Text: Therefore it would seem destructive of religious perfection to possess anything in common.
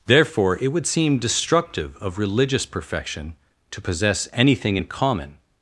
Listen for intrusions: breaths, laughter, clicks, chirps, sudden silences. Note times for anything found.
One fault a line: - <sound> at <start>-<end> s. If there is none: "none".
none